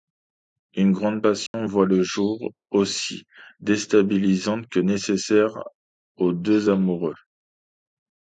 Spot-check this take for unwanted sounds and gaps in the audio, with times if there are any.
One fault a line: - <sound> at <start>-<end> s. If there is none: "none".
- dropout at 1.5-1.5 s